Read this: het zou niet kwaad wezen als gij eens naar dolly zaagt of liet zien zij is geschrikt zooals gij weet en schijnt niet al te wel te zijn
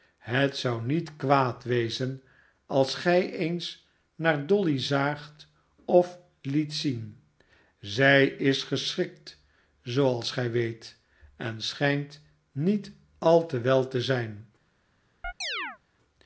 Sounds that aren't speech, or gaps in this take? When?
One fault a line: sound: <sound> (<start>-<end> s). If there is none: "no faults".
sound: chirp (15.2-15.8 s)